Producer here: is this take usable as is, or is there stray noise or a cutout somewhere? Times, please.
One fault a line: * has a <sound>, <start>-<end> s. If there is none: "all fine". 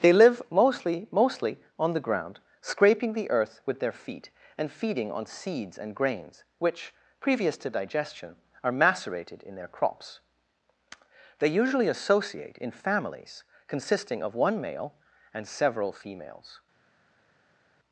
all fine